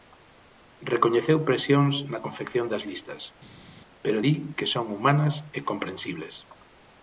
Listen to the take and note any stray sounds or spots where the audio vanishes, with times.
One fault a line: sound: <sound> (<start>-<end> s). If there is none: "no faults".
no faults